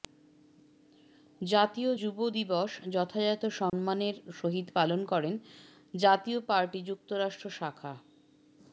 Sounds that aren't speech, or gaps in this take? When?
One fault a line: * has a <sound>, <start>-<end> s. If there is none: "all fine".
* has a dropout, 3.7-3.7 s